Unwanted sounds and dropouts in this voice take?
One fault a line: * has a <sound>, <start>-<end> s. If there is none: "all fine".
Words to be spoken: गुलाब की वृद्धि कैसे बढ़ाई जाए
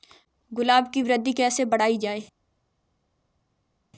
all fine